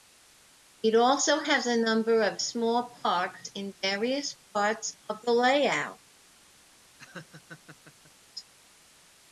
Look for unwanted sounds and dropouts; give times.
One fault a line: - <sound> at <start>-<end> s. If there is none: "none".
- laugh at 7.0-8.1 s